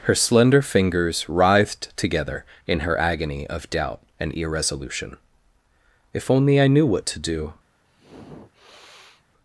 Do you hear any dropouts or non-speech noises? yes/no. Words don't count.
yes